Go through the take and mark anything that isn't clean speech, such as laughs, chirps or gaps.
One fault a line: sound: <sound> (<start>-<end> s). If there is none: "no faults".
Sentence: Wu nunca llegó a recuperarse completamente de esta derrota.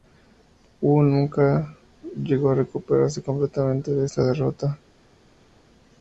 no faults